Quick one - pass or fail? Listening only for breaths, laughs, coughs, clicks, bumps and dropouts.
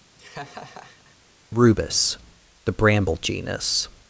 fail